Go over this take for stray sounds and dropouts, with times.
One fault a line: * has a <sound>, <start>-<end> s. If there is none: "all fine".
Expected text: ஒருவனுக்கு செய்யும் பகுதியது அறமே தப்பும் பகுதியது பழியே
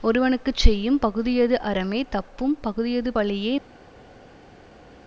all fine